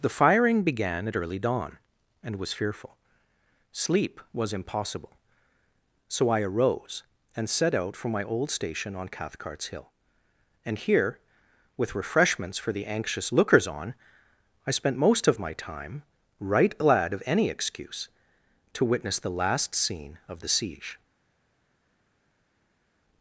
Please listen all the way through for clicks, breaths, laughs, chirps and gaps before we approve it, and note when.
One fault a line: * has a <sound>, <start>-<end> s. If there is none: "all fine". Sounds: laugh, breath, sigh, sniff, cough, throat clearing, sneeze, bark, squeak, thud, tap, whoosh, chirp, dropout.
all fine